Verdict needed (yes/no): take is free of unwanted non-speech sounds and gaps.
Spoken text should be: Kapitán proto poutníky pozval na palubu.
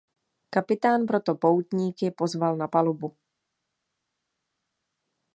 yes